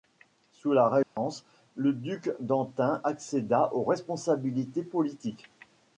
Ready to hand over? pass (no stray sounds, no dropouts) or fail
fail